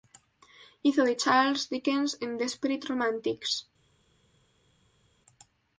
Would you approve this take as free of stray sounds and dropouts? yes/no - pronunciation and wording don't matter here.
yes